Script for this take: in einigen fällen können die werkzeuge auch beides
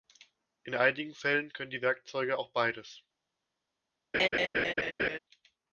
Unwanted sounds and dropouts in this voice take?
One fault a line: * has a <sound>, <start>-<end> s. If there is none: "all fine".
* has a laugh, 4.1-5.2 s